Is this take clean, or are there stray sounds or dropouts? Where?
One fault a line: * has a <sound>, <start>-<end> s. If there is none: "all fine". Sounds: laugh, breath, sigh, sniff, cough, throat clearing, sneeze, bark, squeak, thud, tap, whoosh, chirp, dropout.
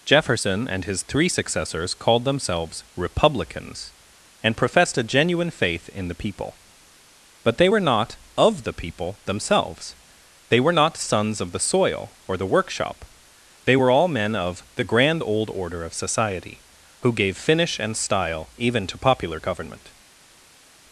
all fine